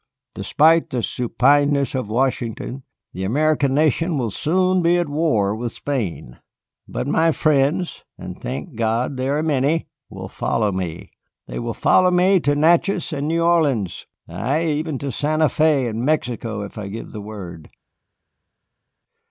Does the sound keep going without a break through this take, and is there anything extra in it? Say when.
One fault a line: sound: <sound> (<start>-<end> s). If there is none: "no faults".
no faults